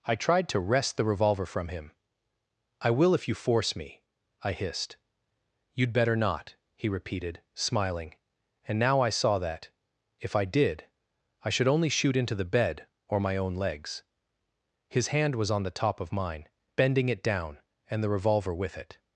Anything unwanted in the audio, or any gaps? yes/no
no